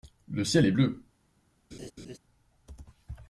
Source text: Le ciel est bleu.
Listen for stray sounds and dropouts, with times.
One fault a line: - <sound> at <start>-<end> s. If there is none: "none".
- laugh at 1.7-2.2 s